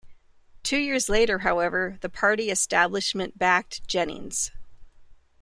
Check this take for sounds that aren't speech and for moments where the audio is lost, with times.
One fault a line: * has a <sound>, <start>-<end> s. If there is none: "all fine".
all fine